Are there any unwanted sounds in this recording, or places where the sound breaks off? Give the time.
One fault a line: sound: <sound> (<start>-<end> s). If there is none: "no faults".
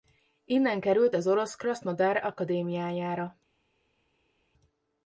no faults